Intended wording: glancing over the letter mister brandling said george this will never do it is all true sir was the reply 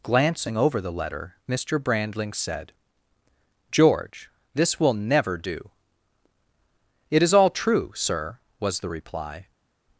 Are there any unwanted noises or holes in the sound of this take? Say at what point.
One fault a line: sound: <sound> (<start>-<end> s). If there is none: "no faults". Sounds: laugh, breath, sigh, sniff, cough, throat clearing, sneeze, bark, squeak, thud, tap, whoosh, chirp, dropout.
no faults